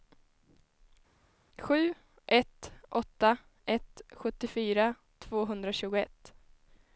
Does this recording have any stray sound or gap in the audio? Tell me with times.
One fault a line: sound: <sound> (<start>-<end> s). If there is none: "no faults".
no faults